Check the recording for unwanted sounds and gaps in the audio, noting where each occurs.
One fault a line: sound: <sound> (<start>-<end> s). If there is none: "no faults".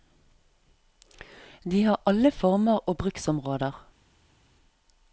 no faults